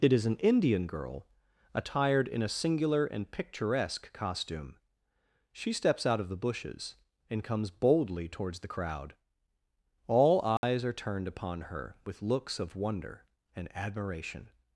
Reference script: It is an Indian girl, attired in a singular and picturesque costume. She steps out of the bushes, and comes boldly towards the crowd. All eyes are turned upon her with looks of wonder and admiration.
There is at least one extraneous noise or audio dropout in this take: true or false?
true